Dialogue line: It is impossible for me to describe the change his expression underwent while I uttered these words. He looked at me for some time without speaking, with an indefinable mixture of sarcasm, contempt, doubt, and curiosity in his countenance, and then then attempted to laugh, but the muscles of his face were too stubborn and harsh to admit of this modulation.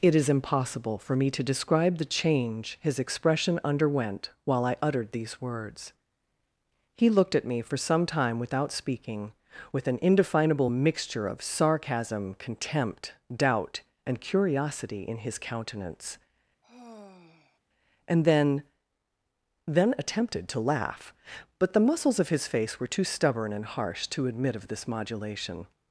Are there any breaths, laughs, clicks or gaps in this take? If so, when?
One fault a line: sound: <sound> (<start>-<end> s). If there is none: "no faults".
sound: sigh (16.6-17.6 s)